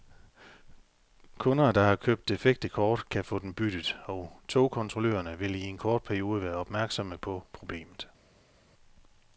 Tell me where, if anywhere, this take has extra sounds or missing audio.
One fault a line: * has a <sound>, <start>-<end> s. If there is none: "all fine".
all fine